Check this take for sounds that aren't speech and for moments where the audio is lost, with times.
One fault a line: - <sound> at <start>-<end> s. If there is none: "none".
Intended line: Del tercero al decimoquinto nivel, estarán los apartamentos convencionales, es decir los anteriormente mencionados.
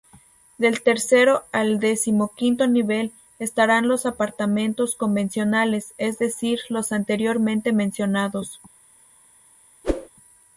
- whoosh at 9.8-10.1 s